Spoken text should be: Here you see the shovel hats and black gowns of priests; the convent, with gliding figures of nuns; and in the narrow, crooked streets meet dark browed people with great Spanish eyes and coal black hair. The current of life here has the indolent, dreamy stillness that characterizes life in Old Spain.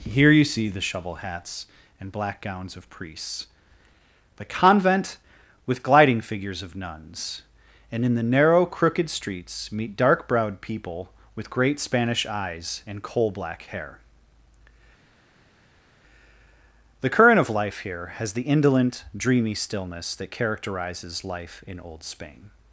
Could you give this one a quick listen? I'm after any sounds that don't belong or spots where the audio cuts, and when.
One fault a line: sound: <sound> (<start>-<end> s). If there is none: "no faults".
no faults